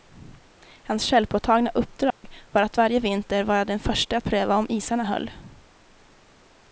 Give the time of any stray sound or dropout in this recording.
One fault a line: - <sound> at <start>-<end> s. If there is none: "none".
- dropout at 2.1-2.2 s